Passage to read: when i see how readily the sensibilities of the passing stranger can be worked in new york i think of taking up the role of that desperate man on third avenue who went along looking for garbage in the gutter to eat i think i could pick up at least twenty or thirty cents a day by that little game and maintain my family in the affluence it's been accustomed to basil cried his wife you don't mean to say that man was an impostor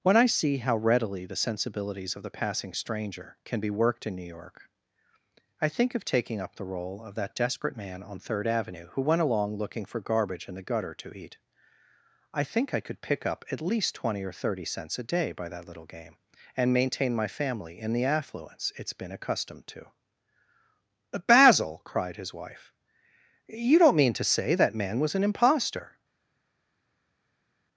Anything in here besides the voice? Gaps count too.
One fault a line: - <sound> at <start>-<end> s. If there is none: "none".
none